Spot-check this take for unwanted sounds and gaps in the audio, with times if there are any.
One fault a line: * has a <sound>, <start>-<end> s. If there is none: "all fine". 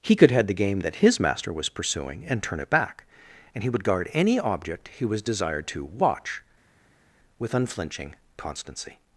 all fine